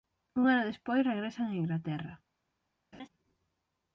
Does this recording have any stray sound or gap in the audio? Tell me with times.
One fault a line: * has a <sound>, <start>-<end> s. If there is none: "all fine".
* has a laugh, 2.9-3.1 s